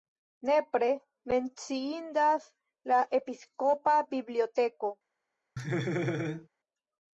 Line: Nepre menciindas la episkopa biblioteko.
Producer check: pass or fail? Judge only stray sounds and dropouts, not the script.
fail